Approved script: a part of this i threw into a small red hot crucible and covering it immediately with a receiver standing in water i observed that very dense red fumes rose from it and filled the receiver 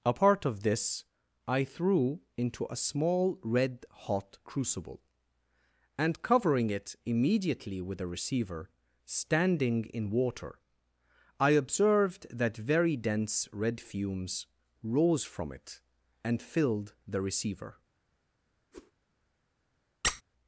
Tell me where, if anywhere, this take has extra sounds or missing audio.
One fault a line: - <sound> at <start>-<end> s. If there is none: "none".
- whoosh at 18.7-18.9 s
- squeak at 20.0-20.2 s